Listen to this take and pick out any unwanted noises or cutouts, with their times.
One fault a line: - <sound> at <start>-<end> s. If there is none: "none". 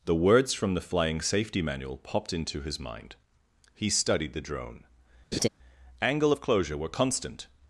- laugh at 5.3-5.5 s